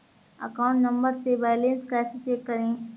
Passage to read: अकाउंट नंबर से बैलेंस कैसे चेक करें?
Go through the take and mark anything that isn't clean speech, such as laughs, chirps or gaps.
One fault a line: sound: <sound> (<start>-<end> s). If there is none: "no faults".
no faults